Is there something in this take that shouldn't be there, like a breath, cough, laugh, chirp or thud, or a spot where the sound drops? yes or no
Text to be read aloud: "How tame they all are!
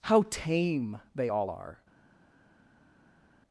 no